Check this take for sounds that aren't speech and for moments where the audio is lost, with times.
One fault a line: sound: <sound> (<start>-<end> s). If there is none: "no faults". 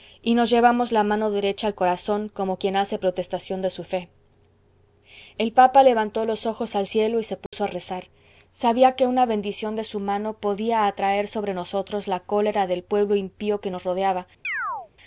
sound: dropout (7.5-7.5 s)
sound: chirp (14.4-14.9 s)